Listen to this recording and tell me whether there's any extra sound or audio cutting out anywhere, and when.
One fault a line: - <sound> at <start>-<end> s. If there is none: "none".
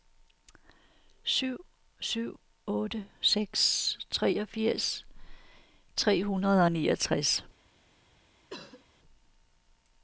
- cough at 8.5-8.9 s